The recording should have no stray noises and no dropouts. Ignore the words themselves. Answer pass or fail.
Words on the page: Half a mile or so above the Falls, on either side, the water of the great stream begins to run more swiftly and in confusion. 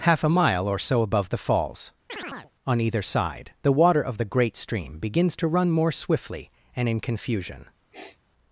fail